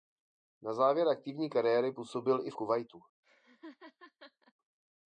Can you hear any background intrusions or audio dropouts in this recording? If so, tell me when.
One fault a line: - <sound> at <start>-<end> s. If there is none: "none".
- laugh at 3.2-4.5 s